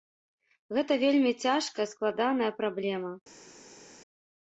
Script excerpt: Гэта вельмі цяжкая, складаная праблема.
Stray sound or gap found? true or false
false